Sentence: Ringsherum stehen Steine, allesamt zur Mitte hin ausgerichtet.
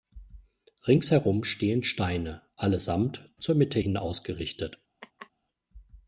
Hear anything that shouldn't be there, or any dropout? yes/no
yes